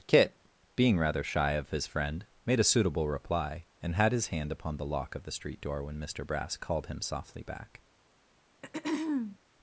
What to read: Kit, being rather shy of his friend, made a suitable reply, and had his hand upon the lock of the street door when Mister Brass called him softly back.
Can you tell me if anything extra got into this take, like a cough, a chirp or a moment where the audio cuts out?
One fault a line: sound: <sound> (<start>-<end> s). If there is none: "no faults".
sound: throat clearing (8.6-9.4 s)